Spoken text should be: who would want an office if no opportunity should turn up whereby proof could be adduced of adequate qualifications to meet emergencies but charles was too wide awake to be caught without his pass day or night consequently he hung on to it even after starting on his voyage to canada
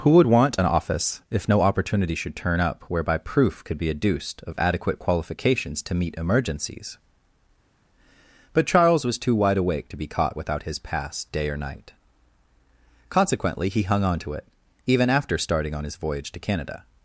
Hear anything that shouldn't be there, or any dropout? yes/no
no